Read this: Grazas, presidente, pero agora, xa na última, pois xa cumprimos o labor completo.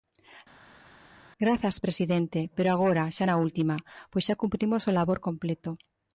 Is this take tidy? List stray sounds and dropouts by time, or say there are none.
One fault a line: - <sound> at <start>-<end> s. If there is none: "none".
none